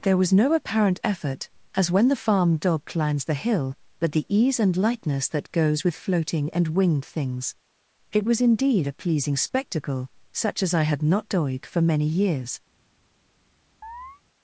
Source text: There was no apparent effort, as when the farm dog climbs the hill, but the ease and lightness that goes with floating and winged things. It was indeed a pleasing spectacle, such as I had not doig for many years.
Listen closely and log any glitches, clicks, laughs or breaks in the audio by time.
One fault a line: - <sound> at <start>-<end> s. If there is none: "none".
- chirp at 13.8-14.2 s